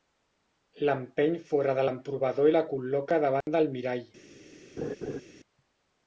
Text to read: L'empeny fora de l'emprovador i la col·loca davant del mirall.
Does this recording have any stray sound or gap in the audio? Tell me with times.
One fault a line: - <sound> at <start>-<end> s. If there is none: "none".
- dropout at 3.4-3.5 s
- laugh at 4.8-5.2 s